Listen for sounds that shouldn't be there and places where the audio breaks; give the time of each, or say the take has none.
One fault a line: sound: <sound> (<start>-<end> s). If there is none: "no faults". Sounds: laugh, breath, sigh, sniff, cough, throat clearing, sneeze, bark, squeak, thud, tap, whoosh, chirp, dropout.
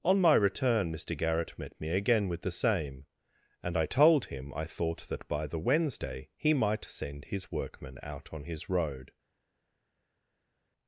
no faults